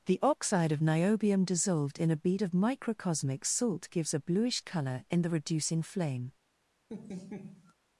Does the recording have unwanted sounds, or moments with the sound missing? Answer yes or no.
yes